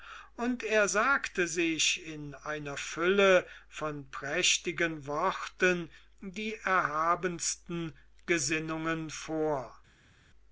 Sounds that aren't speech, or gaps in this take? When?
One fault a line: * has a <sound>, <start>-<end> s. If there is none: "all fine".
all fine